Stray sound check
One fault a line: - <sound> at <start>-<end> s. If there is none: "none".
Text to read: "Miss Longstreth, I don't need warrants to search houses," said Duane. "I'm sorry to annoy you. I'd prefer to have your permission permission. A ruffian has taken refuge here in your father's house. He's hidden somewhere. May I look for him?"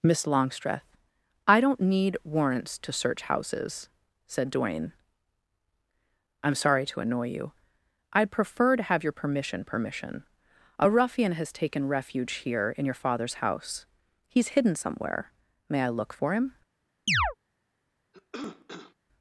- chirp at 17.1-17.3 s
- cough at 18.1-18.9 s